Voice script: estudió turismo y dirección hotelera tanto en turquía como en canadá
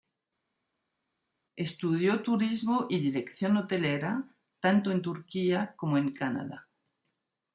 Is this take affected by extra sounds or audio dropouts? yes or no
no